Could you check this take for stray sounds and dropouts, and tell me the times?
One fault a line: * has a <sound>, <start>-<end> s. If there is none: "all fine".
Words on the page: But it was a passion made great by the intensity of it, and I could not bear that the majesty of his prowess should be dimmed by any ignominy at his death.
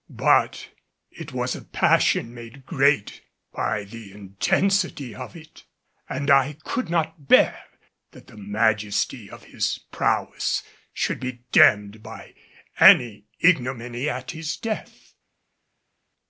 all fine